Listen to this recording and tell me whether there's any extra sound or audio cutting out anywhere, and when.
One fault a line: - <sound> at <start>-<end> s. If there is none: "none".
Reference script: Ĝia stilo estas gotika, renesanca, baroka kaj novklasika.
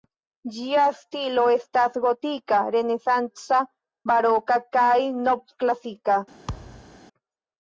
- thud at 6.5-7.0 s